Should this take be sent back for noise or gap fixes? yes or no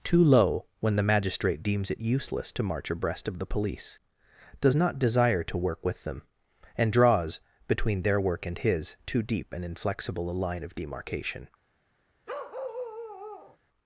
yes